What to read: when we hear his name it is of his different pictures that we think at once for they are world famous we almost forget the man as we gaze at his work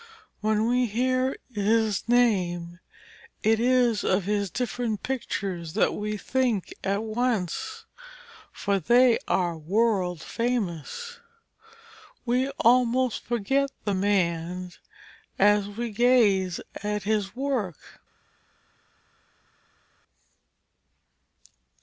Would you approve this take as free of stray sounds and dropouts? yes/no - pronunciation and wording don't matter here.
yes